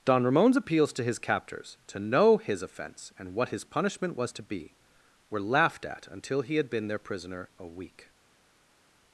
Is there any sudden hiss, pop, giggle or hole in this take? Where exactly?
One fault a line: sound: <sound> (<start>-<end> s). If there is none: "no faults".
no faults